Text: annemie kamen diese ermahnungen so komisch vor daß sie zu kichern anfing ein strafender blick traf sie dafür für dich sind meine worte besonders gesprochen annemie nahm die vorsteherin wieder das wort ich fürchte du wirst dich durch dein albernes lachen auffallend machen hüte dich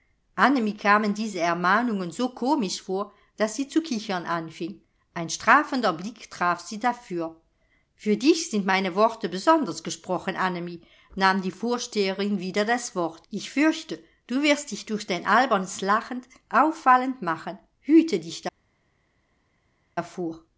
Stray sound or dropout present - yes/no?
no